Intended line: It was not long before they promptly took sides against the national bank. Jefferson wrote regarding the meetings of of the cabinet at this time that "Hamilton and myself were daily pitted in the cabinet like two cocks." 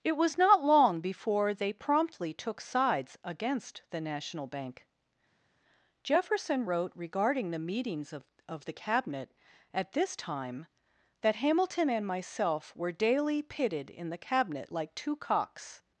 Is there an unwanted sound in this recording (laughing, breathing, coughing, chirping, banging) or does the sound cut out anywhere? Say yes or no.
no